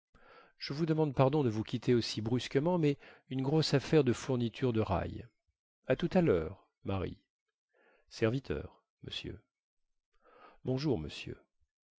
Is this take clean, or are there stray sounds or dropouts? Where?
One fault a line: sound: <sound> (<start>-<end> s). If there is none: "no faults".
no faults